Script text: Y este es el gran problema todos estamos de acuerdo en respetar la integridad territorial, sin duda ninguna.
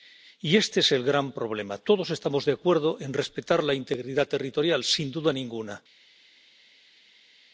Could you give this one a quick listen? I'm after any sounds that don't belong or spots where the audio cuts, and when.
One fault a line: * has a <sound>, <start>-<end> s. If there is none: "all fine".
all fine